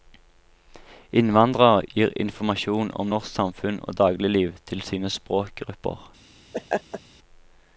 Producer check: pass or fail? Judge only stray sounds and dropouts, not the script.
fail